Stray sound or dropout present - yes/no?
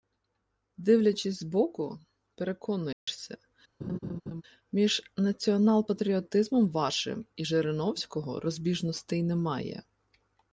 yes